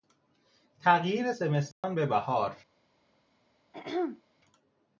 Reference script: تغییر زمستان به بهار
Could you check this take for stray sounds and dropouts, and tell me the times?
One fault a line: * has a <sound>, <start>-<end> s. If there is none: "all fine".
* has a dropout, 1.7-1.8 s
* has a throat clearing, 3.7-4.2 s